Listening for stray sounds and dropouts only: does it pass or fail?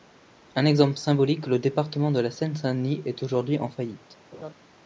fail